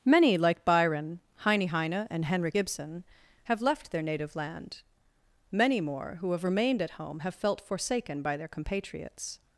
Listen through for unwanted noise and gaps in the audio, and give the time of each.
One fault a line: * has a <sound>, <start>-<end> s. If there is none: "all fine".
all fine